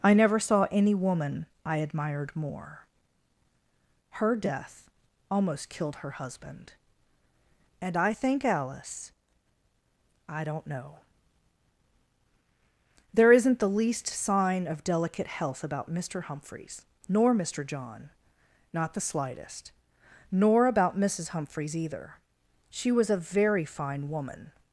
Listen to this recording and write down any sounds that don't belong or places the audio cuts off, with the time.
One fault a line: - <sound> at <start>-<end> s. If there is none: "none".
none